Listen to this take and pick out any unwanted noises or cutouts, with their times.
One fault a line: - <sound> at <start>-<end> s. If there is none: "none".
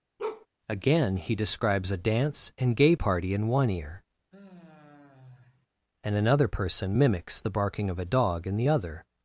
- bark at 0.2-0.5 s
- sigh at 4.3-5.7 s